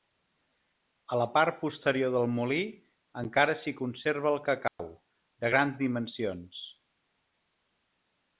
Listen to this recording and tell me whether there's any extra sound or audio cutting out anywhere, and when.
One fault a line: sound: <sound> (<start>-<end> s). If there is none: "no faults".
sound: dropout (4.7-4.8 s)